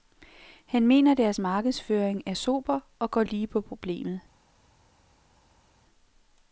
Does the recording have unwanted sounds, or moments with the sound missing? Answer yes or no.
no